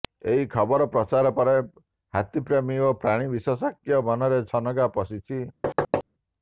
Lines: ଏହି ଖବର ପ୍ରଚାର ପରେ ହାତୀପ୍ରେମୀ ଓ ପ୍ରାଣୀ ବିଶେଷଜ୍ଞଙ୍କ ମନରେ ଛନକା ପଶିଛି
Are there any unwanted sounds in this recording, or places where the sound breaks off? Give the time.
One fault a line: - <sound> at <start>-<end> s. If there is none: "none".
- thud at 5.6-6.0 s